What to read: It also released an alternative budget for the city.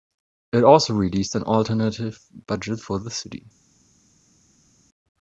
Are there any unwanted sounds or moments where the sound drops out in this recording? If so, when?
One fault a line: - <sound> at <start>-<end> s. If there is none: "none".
none